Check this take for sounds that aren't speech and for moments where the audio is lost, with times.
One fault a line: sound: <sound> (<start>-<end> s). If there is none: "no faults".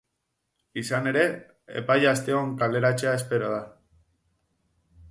no faults